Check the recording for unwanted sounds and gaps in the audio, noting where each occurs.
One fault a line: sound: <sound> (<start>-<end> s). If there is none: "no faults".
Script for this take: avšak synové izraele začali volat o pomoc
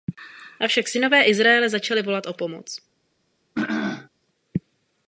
sound: throat clearing (3.5-4.1 s)